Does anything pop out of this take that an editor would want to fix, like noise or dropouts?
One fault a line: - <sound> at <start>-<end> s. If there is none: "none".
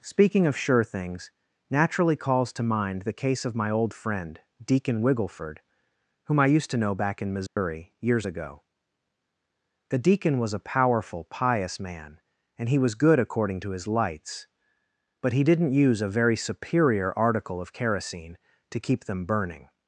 - dropout at 7.5-7.6 s